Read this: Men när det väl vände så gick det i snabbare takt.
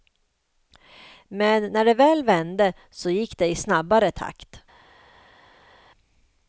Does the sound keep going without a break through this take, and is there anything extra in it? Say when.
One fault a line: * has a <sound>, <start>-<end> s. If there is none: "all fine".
all fine